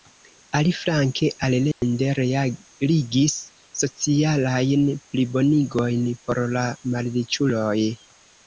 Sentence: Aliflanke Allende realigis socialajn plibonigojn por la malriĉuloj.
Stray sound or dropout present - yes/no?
yes